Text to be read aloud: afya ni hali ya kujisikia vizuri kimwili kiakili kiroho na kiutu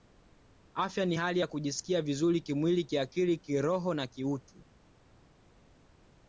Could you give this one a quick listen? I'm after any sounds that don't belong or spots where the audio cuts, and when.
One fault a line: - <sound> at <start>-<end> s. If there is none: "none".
none